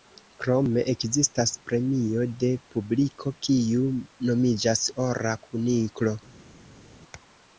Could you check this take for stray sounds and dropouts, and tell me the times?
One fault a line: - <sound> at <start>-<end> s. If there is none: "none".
none